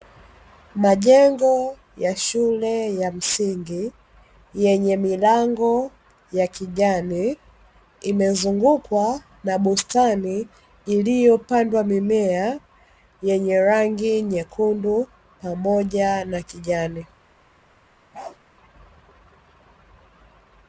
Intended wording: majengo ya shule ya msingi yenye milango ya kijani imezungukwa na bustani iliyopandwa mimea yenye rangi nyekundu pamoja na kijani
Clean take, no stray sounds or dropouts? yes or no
no